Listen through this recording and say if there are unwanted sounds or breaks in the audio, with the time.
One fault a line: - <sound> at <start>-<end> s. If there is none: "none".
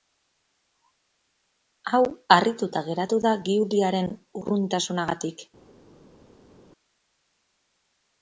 none